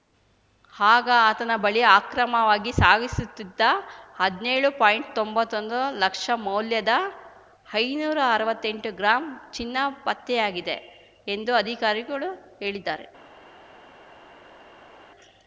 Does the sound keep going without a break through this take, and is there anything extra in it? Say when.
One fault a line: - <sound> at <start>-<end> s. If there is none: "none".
none